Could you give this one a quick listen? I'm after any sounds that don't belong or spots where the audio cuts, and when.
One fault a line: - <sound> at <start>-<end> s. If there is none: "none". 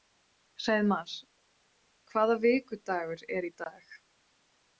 none